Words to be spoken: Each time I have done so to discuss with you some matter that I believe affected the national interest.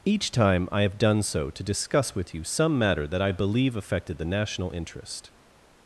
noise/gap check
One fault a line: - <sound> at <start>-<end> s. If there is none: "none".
none